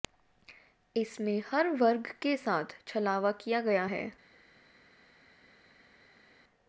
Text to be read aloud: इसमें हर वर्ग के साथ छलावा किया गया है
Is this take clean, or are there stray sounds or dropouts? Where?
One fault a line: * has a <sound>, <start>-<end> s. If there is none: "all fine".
all fine